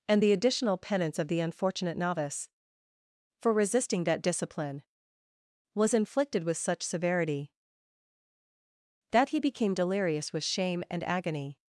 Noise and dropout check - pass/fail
pass